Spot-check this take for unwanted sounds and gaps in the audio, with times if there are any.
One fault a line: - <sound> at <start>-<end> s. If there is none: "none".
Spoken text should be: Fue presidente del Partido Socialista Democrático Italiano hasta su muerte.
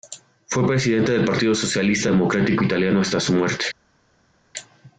none